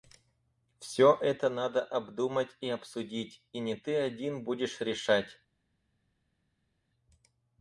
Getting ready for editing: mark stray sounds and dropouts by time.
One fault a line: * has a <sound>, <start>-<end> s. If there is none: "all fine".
all fine